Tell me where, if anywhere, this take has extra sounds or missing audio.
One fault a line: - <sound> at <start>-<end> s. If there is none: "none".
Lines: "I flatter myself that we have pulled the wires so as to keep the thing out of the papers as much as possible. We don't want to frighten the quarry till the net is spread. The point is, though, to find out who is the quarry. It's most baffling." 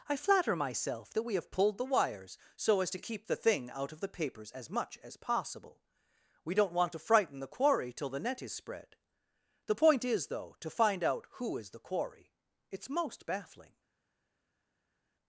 none